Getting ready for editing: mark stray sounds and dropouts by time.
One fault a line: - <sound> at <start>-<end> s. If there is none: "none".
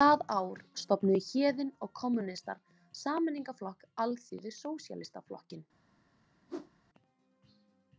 - whoosh at 6.5-6.7 s